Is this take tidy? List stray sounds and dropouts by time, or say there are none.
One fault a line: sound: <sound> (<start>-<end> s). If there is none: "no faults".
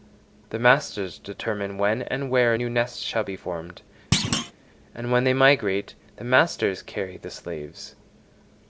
sound: thud (4.1-4.5 s)